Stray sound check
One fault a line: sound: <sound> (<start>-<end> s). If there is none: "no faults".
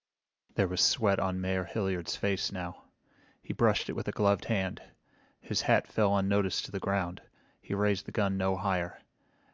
no faults